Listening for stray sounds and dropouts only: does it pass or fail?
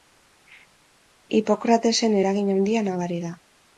pass